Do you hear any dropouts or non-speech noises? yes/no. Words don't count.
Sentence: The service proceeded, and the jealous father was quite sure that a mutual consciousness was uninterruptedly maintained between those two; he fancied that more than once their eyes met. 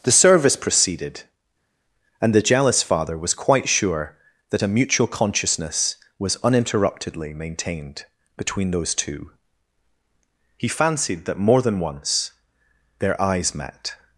no